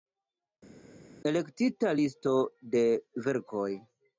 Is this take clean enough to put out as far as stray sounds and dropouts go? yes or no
yes